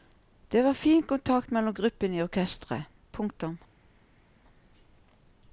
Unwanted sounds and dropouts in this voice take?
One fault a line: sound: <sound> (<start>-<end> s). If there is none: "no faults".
no faults